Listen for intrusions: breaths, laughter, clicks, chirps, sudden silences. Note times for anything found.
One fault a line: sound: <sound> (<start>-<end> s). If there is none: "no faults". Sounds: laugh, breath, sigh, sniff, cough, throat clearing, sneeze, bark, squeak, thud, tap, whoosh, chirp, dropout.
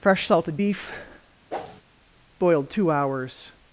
sound: whoosh (1.5-1.8 s)